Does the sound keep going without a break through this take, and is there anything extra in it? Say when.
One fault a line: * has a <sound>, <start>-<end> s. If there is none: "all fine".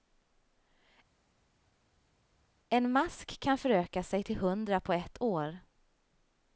all fine